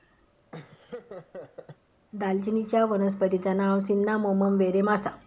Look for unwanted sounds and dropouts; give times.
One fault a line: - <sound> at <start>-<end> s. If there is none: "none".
- laugh at 0.5-1.8 s